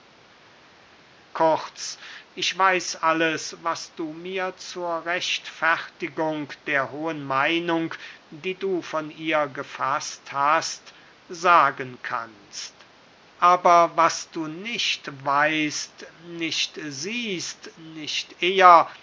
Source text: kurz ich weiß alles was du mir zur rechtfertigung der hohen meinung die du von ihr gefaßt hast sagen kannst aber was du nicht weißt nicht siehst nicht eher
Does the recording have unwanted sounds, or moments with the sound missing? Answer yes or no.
no